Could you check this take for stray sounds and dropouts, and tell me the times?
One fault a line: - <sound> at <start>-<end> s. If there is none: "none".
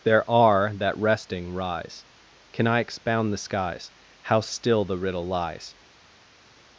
none